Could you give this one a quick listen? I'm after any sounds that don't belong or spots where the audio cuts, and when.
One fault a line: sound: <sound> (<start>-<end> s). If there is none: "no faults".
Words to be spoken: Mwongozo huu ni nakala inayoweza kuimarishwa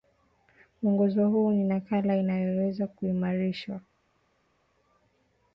no faults